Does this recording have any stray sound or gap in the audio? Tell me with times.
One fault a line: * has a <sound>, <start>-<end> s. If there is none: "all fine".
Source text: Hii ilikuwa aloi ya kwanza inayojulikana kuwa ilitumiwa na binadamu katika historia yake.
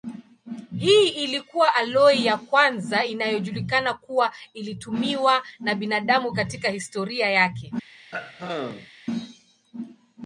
* has a throat clearing, 8.1-8.9 s